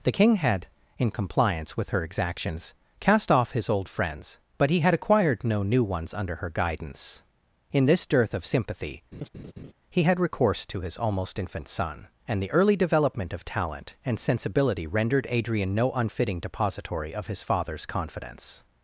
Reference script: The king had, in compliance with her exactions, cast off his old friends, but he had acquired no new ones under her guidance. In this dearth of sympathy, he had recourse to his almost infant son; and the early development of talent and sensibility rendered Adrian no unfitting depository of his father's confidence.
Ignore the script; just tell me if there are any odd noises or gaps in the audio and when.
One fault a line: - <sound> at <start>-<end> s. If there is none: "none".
- laugh at 9.1-9.7 s